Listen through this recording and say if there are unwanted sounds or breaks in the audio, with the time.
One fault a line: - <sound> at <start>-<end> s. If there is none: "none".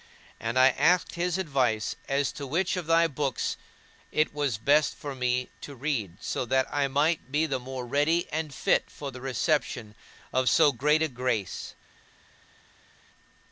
none